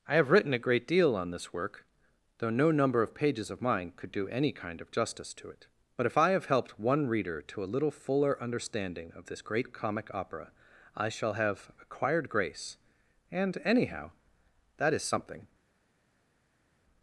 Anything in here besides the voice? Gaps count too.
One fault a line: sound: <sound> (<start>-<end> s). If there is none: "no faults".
no faults